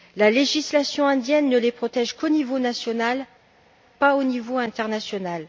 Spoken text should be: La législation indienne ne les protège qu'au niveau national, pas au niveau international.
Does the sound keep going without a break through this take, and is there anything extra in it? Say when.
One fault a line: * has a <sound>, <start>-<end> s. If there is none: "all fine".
all fine